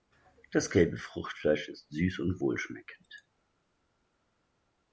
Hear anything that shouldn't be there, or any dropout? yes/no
no